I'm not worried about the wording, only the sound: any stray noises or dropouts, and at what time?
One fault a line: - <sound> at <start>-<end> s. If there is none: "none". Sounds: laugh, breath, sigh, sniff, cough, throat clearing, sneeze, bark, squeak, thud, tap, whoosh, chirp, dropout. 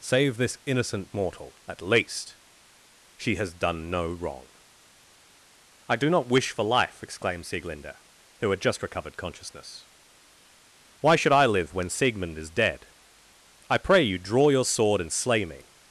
none